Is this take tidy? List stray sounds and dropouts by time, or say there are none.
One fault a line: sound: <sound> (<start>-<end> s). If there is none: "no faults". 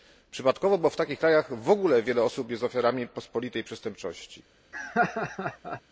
sound: laugh (4.7-5.8 s)